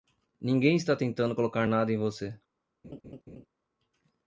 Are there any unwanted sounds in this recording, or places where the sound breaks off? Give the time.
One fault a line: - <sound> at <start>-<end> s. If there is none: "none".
- laugh at 2.8-3.5 s